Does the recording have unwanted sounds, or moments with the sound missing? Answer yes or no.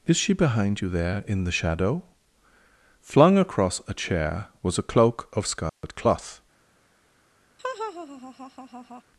yes